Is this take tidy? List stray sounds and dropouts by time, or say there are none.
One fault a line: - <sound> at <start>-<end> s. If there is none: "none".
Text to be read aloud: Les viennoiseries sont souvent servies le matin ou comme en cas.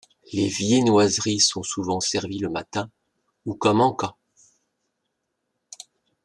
none